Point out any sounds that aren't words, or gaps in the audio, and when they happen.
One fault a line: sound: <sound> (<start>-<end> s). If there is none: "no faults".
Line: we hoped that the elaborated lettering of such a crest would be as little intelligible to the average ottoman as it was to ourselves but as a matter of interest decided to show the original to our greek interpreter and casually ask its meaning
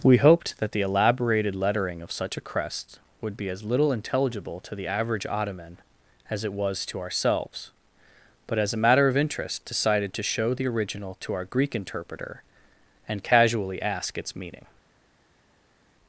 no faults